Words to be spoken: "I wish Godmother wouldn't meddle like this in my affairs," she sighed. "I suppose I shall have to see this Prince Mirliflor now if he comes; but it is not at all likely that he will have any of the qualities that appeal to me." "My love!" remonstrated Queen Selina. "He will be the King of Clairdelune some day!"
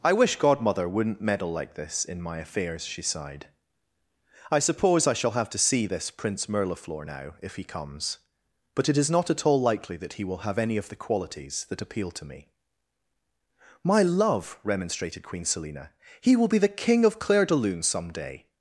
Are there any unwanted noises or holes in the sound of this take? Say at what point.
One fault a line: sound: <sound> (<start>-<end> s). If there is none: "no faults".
no faults